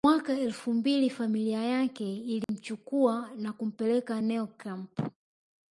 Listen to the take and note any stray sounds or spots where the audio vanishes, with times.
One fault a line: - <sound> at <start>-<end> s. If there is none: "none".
- dropout at 2.4-2.5 s